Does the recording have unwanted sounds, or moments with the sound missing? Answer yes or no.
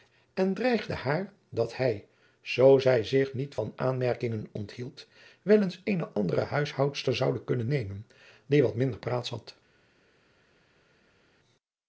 no